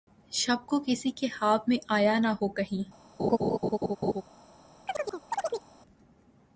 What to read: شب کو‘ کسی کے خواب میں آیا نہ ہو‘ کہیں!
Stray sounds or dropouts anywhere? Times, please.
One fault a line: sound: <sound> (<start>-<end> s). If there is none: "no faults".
sound: laugh (3.2-4.2 s)
sound: chirp (4.9-5.7 s)